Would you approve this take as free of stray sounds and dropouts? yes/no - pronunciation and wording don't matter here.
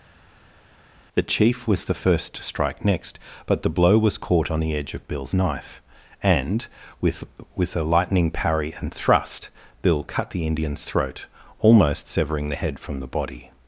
yes